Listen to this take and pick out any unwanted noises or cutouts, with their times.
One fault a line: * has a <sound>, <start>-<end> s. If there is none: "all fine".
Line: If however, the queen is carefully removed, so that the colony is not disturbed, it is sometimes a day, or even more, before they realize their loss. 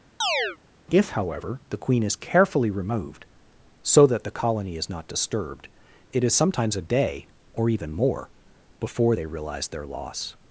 * has a chirp, 0.2-0.6 s